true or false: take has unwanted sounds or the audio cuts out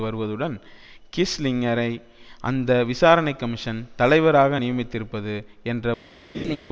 true